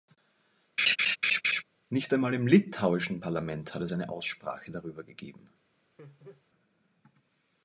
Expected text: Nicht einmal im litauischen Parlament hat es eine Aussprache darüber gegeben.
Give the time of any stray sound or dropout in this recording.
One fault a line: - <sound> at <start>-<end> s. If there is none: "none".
- laugh at 0.8-1.6 s
- laugh at 6.0-6.5 s